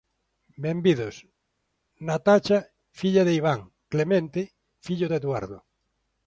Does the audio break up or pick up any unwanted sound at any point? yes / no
no